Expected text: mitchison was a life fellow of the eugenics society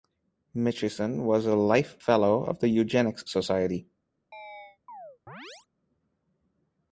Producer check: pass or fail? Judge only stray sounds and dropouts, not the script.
fail